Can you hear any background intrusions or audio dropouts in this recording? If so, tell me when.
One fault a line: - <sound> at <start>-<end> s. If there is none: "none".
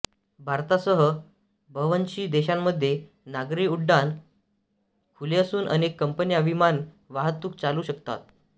none